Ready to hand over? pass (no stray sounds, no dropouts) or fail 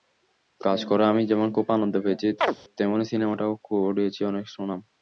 fail